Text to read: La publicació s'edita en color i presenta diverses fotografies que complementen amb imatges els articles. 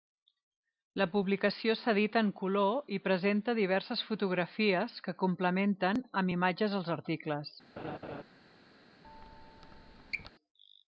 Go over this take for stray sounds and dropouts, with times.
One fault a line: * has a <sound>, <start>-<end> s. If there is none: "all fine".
* has a laugh, 7.8-8.2 s
* has a squeak, 9.0-10.3 s